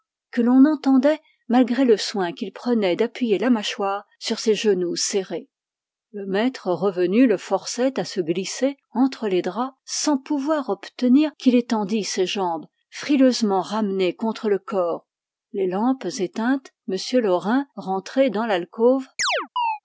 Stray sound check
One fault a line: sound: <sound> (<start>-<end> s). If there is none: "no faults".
sound: chirp (19.2-19.8 s)